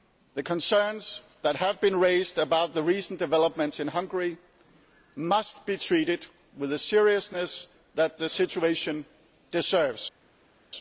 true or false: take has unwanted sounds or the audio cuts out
false